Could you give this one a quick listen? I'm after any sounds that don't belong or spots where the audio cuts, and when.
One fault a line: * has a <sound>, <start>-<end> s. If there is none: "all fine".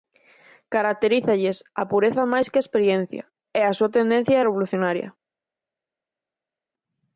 all fine